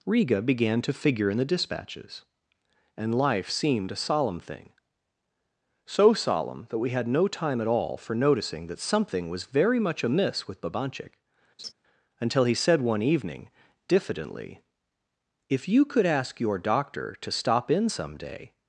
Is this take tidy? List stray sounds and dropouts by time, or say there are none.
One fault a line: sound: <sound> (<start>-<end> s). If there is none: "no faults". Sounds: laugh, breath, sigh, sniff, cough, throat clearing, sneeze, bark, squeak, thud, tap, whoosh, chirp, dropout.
sound: laugh (11.6-11.7 s)